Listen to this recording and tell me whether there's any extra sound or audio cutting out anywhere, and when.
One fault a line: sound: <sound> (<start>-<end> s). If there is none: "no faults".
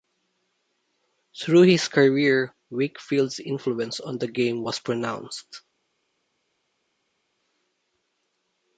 no faults